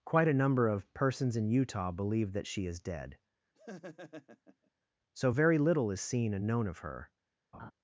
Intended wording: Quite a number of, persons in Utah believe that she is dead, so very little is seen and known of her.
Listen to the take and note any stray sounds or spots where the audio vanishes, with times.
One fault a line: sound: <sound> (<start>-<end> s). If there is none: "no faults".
sound: laugh (3.5-4.7 s)
sound: laugh (7.5-7.7 s)